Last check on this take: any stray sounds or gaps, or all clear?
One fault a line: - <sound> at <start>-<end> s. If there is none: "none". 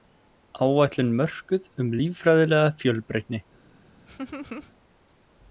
- laugh at 4.1-4.7 s